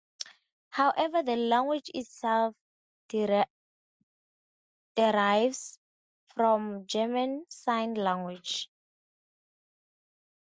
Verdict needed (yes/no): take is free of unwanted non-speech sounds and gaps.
yes